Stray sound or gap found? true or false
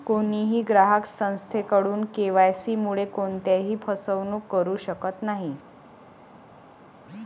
false